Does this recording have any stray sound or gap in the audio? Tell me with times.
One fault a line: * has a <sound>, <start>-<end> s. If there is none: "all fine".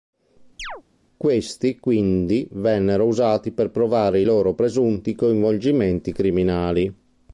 * has a chirp, 0.6-0.8 s